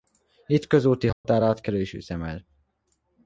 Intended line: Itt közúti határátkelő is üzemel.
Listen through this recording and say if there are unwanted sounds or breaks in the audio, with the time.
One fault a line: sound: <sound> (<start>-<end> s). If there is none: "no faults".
sound: dropout (1.1-1.2 s)